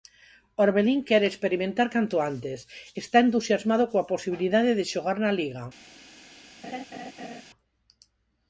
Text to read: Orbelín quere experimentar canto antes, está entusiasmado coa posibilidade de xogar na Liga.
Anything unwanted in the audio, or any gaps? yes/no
yes